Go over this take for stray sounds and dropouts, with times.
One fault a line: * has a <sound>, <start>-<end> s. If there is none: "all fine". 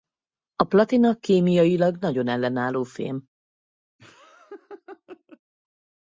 * has a laugh, 4.0-5.4 s